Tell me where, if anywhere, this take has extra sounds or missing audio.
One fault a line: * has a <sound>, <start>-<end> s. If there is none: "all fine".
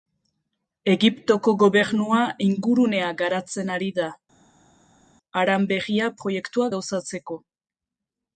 all fine